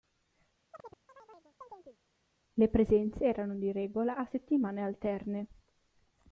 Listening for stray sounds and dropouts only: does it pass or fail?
fail